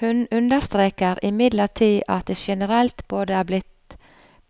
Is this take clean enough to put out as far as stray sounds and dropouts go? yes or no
yes